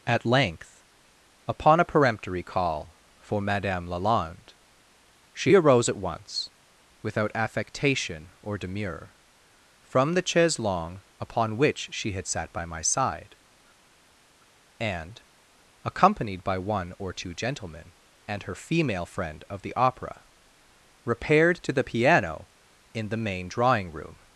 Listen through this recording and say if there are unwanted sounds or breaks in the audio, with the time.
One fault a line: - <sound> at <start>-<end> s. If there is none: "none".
none